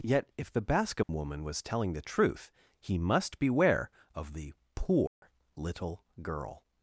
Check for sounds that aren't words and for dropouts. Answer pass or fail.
fail